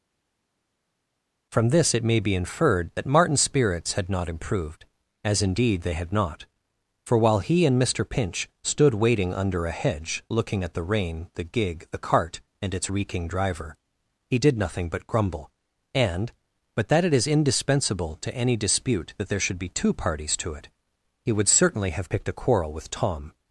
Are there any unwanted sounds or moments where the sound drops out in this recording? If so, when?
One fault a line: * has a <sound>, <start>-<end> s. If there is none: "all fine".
all fine